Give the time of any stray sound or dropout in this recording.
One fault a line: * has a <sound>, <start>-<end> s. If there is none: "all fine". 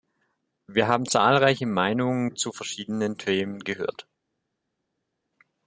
all fine